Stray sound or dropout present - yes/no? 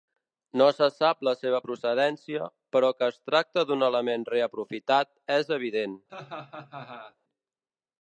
yes